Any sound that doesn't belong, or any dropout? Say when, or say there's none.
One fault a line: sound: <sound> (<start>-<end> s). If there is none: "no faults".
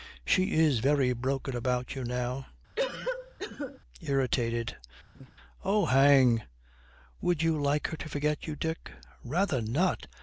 sound: cough (2.8-3.8 s)
sound: laugh (5.1-5.3 s)